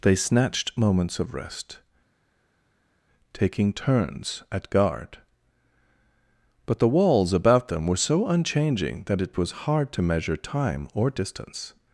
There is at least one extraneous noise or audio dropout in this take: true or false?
false